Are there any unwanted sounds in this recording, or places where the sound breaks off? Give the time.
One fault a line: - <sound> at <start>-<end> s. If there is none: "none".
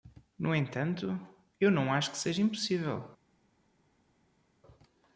none